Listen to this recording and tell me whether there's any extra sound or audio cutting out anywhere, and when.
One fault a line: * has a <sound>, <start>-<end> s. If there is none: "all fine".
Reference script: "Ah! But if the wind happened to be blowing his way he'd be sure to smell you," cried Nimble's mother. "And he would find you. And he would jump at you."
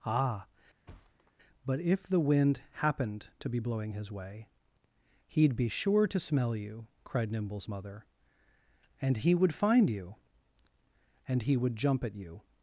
* has a thud, 0.9-1.3 s